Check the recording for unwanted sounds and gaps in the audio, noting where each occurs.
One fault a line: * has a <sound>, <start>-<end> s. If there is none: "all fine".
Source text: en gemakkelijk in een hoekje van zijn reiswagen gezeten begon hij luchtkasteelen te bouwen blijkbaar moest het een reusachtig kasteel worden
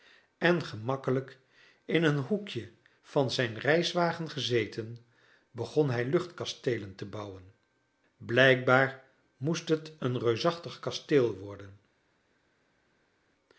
all fine